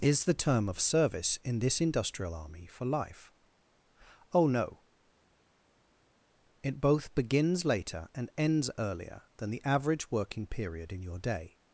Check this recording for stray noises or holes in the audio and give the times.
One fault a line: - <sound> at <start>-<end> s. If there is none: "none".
none